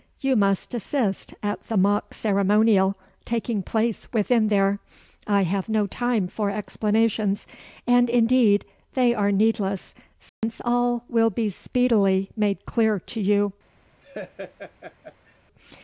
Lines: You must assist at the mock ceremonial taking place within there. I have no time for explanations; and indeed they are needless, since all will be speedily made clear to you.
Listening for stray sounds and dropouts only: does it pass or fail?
fail